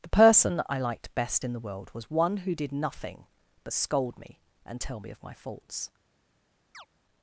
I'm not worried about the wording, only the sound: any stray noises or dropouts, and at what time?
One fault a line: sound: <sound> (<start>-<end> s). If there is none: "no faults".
sound: chirp (6.7-6.9 s)